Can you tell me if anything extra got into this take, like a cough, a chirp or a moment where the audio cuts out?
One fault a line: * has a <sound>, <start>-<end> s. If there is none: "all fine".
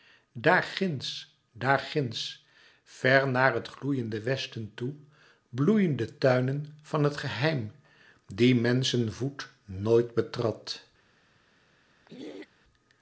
* has a throat clearing, 12.1-12.5 s